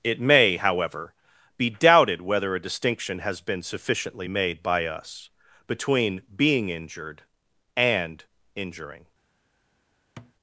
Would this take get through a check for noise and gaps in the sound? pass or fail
fail